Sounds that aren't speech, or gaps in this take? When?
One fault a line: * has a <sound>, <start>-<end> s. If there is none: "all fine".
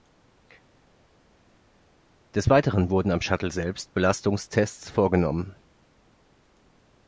all fine